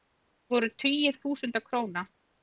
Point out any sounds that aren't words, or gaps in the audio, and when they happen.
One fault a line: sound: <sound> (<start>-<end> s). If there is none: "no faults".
no faults